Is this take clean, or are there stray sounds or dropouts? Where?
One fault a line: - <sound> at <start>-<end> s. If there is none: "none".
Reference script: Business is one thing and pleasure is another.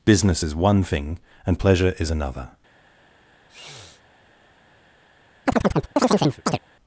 - sniff at 3.5-4.0 s
- chirp at 5.5-6.6 s